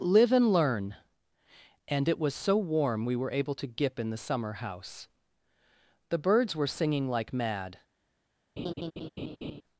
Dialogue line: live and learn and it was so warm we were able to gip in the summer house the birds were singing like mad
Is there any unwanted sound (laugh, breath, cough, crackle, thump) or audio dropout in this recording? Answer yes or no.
yes